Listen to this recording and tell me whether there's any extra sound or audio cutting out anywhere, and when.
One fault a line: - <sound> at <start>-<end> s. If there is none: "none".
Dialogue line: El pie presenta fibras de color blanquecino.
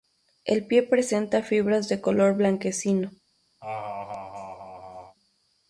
- laugh at 3.6-5.2 s